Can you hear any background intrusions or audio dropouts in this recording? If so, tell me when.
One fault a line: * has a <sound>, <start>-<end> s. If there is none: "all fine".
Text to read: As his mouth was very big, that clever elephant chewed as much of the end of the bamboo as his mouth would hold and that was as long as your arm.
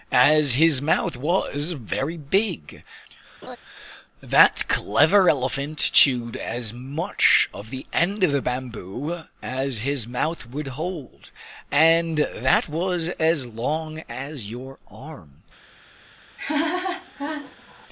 * has a laugh, 3.4-3.6 s
* has a laugh, 16.4-17.9 s